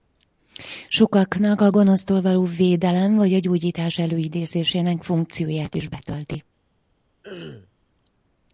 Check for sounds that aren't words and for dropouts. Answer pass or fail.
fail